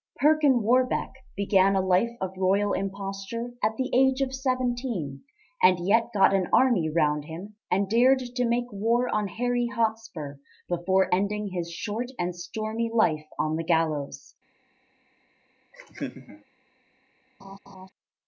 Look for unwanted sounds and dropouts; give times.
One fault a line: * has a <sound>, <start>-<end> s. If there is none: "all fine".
* has a laugh, 15.7-16.4 s
* has a laugh, 17.4-17.9 s